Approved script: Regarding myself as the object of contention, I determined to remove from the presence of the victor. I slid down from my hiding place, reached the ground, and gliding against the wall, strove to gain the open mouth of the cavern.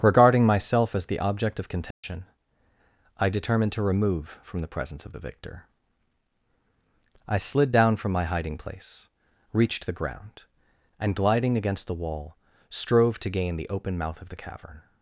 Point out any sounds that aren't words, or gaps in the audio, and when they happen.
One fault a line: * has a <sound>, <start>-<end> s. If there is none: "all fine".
* has a dropout, 1.9-2.0 s